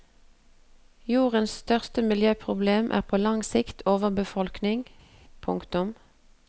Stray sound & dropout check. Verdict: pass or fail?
pass